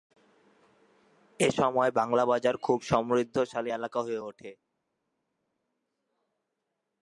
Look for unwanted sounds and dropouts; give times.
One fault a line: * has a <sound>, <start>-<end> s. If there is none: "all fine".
all fine